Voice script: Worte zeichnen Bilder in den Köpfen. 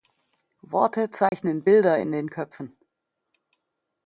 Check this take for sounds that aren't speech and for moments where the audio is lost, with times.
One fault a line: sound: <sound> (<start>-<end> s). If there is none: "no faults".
sound: dropout (1.3-1.3 s)